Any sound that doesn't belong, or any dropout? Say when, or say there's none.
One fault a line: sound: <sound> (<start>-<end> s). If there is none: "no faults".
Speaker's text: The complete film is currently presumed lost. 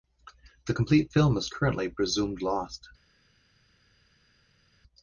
no faults